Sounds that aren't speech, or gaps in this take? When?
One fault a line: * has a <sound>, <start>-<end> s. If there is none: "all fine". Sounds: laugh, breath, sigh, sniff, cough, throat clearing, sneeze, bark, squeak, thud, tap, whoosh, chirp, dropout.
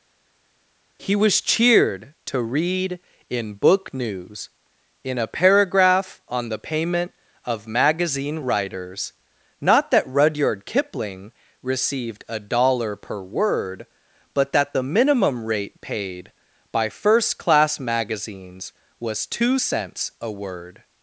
all fine